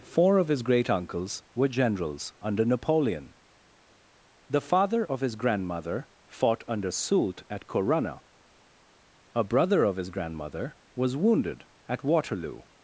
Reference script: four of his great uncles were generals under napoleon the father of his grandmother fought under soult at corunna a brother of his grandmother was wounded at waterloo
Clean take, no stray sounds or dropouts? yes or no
yes